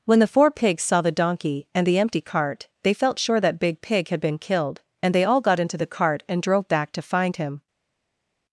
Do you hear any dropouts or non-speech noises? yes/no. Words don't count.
no